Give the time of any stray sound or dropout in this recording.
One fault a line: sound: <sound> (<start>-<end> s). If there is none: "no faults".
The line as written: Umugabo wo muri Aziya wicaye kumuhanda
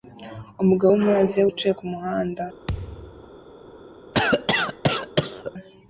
sound: thud (2.7-3.3 s)
sound: cough (4.1-5.5 s)